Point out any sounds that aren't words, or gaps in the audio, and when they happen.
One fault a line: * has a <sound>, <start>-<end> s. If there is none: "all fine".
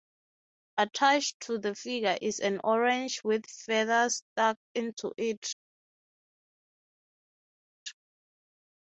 all fine